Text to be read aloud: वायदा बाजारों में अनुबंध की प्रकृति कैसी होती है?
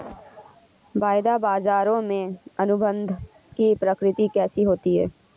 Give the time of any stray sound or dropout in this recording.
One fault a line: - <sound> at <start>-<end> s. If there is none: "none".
none